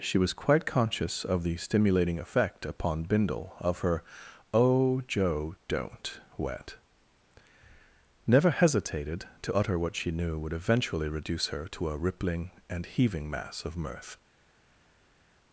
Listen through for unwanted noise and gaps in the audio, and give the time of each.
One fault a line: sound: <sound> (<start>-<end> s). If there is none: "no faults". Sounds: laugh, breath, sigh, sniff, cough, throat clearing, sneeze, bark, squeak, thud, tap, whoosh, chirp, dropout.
no faults